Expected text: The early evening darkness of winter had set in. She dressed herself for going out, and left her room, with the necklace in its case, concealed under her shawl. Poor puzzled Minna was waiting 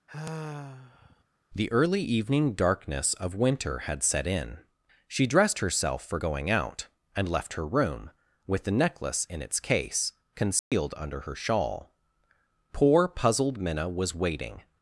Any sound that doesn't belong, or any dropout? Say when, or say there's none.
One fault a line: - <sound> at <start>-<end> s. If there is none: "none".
- sigh at 0.1-1.2 s
- dropout at 10.6-10.7 s